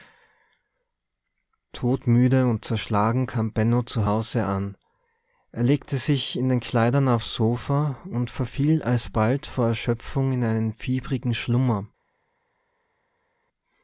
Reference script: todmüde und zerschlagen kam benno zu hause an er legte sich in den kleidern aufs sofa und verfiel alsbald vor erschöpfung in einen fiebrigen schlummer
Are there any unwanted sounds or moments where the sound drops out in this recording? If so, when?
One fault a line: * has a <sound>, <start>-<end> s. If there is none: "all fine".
all fine